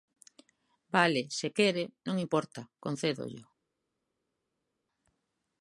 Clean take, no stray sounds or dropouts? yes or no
yes